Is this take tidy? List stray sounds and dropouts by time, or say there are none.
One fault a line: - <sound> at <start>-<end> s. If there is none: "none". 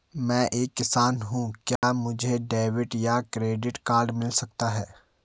- dropout at 1.8-1.8 s